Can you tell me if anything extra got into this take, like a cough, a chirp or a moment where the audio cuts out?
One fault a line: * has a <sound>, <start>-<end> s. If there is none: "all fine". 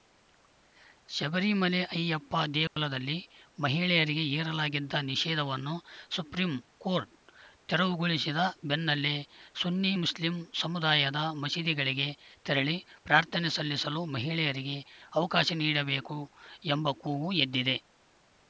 * has a dropout, 2.7-2.8 s